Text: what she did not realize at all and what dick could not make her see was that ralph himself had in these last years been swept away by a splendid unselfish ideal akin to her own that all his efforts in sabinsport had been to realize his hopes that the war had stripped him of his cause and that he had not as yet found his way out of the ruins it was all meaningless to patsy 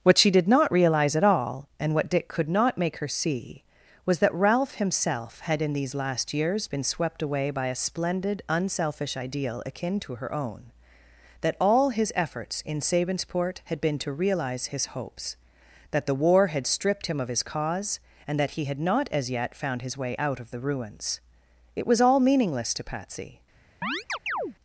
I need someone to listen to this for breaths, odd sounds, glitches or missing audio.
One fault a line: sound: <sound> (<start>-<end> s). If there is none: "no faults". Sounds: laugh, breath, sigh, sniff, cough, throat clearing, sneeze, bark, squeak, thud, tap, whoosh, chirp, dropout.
sound: chirp (23.8-24.6 s)